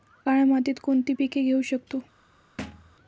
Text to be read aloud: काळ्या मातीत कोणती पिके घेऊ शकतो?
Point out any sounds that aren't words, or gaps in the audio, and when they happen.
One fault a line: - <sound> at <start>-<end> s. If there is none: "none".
- thud at 2.6-3.0 s